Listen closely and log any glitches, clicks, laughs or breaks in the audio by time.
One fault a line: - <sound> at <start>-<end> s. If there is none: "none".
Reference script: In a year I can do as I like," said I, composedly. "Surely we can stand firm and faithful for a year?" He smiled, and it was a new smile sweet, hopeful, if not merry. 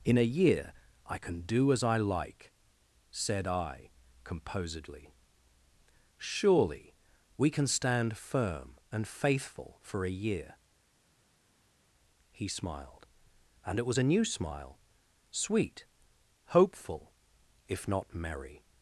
none